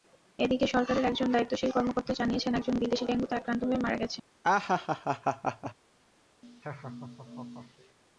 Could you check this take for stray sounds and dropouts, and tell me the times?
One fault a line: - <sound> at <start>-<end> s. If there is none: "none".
- laugh at 4.4-5.7 s
- laugh at 6.4-8.0 s